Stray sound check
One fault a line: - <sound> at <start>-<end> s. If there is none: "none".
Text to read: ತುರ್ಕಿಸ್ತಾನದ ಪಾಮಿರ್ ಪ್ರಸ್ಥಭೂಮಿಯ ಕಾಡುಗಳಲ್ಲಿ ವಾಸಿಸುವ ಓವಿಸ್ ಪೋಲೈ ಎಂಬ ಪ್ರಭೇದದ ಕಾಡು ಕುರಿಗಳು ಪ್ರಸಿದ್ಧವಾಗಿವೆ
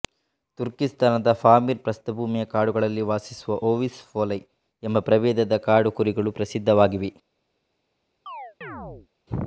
- chirp at 8.3-9.1 s